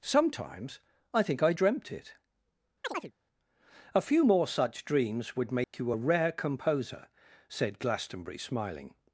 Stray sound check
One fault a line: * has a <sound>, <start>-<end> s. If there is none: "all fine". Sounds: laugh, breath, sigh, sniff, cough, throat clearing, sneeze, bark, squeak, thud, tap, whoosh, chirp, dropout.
* has a chirp, 2.8-3.1 s
* has a dropout, 5.6-5.7 s